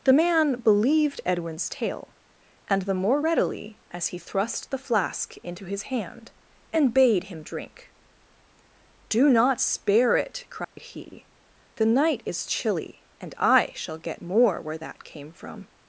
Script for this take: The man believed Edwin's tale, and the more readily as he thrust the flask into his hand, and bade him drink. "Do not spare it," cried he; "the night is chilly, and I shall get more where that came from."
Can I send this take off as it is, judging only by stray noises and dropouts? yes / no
no